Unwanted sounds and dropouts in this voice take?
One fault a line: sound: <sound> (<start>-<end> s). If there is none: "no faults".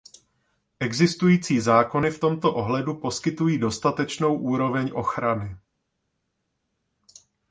no faults